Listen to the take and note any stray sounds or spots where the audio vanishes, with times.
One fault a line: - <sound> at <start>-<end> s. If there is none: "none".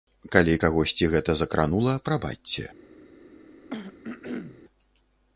- throat clearing at 3.7-4.6 s